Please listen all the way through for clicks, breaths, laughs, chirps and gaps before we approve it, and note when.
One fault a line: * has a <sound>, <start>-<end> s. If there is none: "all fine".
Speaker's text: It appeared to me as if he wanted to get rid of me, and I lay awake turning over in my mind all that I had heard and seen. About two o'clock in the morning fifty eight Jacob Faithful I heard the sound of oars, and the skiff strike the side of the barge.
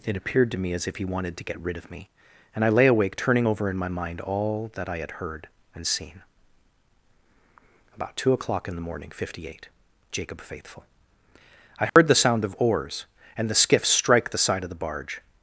* has a dropout, 11.9-12.0 s